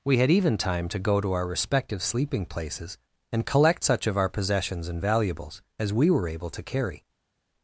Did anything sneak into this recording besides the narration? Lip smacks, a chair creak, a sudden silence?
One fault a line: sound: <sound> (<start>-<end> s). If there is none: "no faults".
no faults